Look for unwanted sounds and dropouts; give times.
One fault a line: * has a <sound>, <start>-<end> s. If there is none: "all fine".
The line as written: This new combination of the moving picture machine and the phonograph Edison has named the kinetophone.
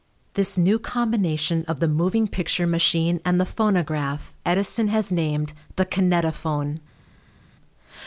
all fine